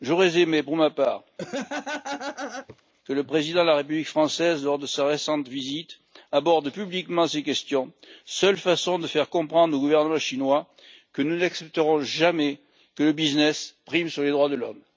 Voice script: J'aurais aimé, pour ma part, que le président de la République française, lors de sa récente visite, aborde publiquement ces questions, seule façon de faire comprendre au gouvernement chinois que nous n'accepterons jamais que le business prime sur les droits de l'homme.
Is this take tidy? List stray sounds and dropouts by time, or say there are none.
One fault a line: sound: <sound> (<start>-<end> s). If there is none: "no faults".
sound: laugh (1.4-2.8 s)